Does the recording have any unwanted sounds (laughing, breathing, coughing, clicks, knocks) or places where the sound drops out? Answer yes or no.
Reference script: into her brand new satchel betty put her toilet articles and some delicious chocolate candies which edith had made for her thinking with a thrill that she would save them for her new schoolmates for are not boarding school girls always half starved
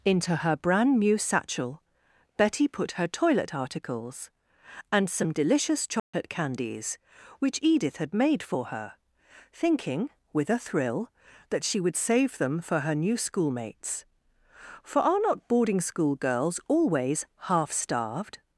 yes